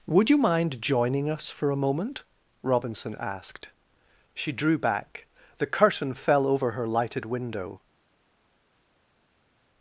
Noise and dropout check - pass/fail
pass